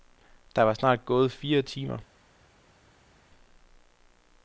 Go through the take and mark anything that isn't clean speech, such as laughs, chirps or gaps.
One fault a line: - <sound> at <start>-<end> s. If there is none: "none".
none